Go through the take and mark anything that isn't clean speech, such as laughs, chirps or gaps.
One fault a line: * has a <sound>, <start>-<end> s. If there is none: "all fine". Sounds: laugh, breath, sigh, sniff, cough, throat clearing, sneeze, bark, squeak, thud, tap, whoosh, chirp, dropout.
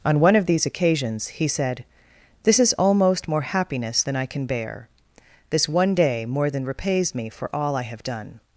all fine